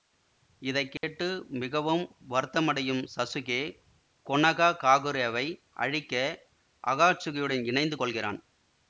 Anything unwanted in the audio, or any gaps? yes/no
yes